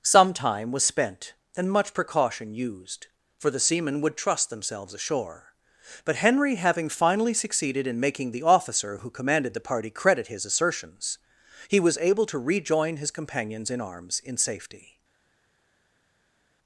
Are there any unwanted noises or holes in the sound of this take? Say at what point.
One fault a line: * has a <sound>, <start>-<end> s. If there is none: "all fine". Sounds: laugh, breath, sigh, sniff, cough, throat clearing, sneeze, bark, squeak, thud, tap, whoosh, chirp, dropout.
all fine